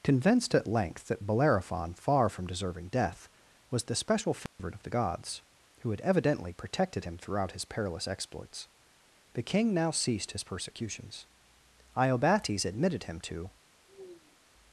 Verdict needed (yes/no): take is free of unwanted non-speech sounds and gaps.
no